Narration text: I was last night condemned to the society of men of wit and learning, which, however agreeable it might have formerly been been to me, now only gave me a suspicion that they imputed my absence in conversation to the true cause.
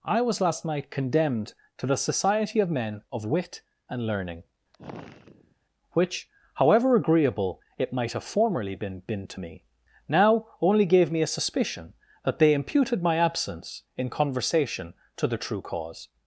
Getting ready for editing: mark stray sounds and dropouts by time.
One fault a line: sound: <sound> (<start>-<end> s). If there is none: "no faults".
sound: sigh (4.7-5.6 s)